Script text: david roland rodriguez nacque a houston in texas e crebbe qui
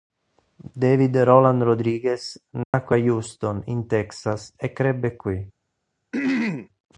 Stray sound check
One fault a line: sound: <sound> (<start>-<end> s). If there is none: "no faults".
sound: dropout (2.6-2.7 s)
sound: throat clearing (6.1-6.7 s)